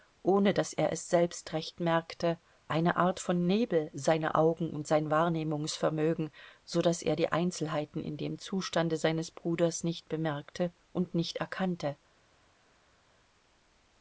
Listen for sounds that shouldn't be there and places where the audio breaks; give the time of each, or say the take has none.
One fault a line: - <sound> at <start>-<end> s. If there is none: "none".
none